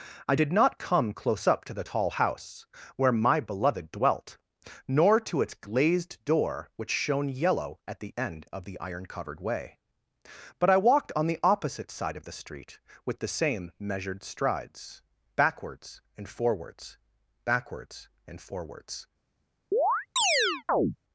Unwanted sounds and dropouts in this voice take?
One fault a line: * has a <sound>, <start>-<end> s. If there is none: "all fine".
* has a chirp, 19.7-21.0 s